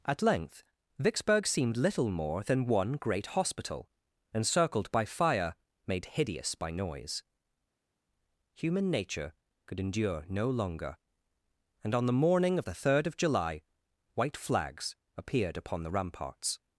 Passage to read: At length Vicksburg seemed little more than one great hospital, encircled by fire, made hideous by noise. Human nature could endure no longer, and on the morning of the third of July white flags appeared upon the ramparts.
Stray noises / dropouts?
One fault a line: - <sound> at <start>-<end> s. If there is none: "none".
none